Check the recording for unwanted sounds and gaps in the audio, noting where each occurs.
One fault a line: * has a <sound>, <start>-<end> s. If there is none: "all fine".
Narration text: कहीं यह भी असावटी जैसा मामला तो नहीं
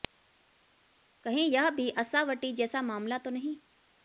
all fine